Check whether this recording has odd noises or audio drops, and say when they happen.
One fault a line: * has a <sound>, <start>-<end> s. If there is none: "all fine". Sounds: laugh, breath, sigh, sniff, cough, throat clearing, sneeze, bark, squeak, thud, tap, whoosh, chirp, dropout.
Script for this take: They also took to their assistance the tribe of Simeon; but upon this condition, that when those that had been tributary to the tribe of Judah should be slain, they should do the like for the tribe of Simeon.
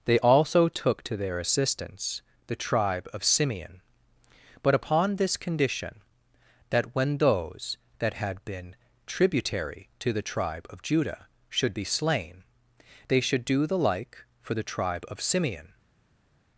all fine